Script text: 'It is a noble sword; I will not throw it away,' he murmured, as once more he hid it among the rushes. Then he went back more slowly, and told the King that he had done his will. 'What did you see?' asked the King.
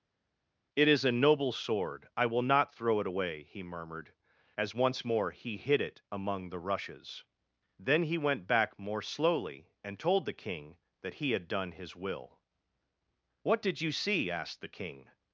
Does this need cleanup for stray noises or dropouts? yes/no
no